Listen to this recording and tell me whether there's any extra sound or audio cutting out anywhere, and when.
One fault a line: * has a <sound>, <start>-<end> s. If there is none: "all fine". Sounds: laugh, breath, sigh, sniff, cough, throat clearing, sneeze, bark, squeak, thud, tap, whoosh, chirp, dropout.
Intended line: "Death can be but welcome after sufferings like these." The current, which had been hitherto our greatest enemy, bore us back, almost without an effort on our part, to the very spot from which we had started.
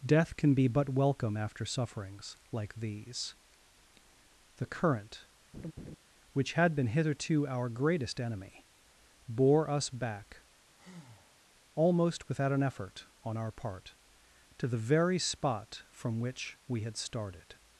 * has a laugh, 5.5-6.0 s
* has a breath, 10.8-11.4 s